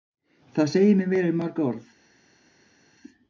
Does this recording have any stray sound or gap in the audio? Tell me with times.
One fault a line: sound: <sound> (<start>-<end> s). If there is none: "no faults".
no faults